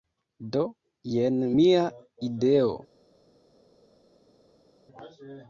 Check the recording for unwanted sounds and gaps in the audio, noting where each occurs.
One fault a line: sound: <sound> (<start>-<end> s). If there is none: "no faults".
no faults